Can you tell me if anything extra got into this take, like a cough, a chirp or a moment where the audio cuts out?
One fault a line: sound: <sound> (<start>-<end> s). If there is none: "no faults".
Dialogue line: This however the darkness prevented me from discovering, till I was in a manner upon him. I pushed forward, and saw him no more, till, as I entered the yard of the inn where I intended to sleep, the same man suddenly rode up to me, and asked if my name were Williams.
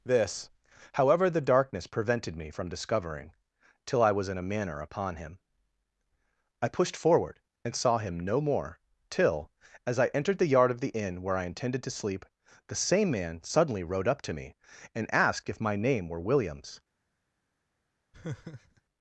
sound: laugh (18.1-18.8 s)